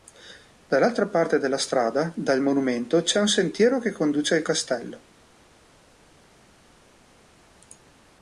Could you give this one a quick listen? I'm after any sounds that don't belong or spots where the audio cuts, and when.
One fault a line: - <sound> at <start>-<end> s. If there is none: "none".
none